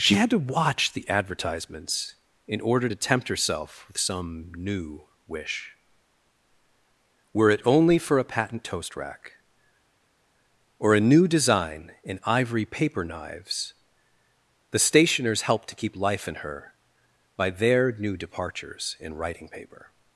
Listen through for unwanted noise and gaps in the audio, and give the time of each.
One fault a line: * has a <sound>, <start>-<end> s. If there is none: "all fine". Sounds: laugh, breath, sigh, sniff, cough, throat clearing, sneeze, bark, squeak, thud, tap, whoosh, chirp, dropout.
all fine